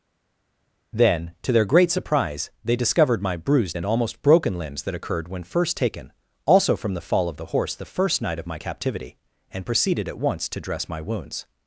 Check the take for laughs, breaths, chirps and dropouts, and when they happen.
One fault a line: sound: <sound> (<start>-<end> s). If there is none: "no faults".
no faults